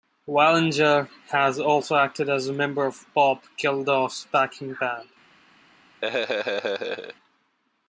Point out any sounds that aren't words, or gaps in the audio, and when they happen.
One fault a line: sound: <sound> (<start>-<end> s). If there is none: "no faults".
sound: laugh (6.0-7.2 s)